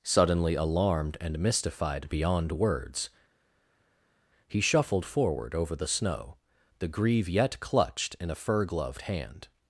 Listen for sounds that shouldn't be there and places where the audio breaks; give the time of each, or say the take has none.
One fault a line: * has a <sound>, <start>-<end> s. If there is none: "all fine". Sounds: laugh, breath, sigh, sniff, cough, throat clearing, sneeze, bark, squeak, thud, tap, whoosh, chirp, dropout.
all fine